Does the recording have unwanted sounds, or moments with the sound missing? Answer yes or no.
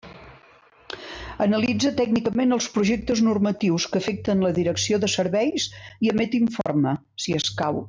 yes